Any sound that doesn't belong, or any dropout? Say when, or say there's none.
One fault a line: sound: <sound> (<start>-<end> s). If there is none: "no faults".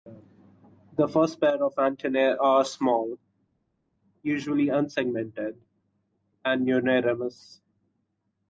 no faults